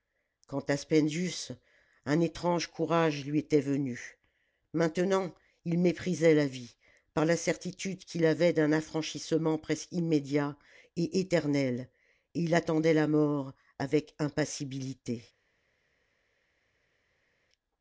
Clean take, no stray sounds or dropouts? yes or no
yes